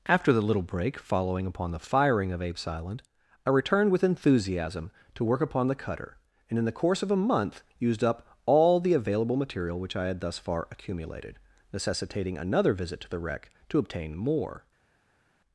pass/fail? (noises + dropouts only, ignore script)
pass